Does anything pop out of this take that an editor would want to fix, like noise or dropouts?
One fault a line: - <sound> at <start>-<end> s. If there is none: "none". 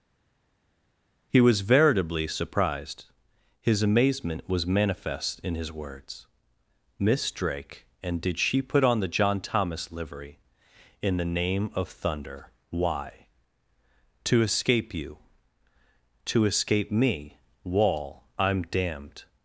none